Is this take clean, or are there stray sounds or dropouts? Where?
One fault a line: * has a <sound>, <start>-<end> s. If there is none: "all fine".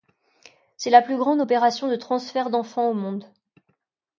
all fine